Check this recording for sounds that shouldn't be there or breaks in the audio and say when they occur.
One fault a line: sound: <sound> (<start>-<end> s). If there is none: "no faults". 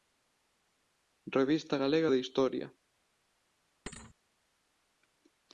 sound: thud (3.9-4.1 s)